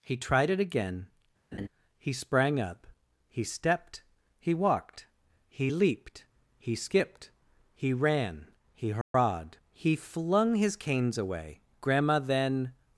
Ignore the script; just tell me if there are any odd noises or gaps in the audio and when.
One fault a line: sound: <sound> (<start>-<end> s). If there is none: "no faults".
sound: laugh (1.5-1.7 s)
sound: dropout (9.0-9.1 s)